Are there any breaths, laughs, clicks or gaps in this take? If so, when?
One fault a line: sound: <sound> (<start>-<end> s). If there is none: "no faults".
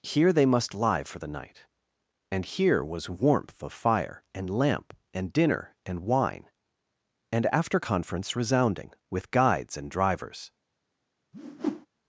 sound: whoosh (11.3-11.9 s)